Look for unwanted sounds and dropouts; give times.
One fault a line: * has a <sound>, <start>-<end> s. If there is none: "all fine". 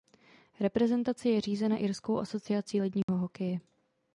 * has a dropout, 3.0-3.1 s